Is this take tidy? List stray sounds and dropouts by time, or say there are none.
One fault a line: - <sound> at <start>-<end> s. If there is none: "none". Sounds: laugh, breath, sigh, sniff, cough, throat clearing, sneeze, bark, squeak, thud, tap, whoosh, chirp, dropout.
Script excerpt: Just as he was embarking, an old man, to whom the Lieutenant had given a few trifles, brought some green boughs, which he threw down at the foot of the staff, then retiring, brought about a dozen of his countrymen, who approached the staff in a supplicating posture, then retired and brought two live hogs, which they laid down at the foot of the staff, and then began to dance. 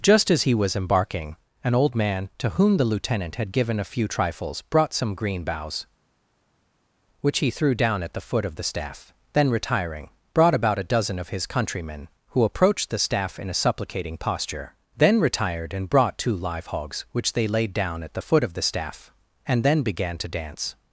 none